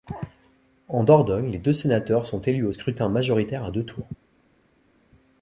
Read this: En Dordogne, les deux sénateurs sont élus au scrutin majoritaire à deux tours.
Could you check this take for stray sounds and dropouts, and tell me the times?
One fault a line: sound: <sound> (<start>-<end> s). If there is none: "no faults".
no faults